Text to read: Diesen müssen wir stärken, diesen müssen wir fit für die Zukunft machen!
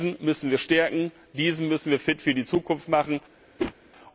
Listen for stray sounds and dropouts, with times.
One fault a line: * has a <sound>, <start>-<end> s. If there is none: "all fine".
* has a whoosh, 3.6-3.7 s